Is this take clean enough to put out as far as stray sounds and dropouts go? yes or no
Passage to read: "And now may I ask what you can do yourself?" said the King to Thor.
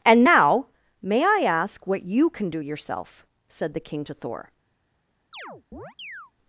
no